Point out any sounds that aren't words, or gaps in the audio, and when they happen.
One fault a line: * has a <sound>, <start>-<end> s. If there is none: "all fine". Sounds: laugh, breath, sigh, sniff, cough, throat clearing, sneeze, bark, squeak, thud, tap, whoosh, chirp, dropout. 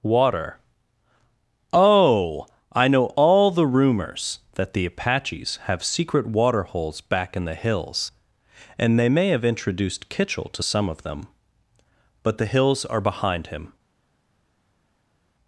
all fine